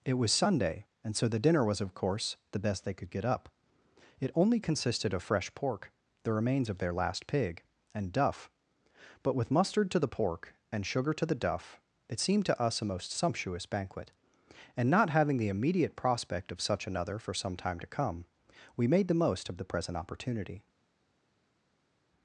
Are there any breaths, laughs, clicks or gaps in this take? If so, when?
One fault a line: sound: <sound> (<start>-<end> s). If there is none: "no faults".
no faults